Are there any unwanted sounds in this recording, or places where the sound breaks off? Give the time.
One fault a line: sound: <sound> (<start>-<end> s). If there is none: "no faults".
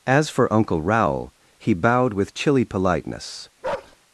sound: bark (3.6-4.0 s)